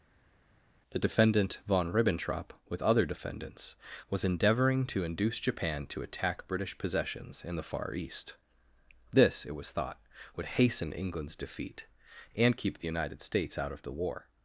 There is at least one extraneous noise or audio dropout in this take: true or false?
false